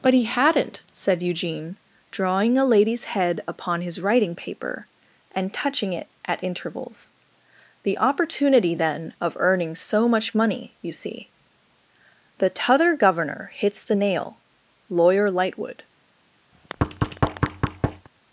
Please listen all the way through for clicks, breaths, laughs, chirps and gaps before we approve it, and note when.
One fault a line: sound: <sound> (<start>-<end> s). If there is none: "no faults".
sound: thud (16.5-18.1 s)